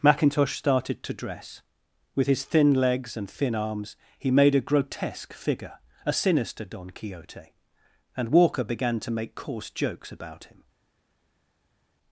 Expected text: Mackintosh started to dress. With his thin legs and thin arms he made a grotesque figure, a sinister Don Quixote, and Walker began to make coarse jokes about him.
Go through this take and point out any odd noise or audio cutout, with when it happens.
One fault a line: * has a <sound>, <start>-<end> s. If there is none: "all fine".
all fine